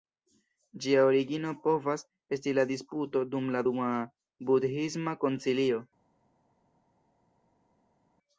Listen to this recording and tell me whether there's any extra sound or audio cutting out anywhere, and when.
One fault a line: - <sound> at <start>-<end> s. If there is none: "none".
none